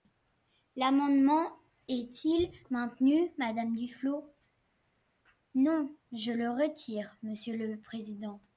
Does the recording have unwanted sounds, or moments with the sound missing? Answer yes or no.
no